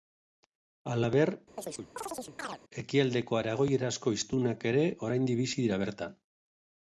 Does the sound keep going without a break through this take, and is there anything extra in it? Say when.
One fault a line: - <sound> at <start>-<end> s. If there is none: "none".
- chirp at 1.6-2.6 s